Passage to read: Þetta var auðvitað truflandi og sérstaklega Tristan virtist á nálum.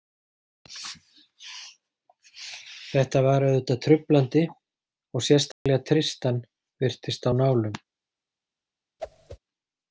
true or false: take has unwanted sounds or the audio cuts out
true